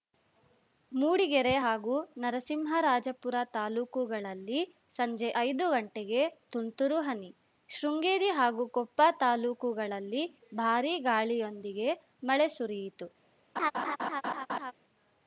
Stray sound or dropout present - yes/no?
yes